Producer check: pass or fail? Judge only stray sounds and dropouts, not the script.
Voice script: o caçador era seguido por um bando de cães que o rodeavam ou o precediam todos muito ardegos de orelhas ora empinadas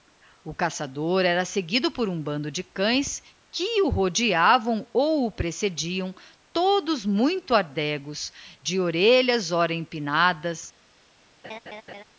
fail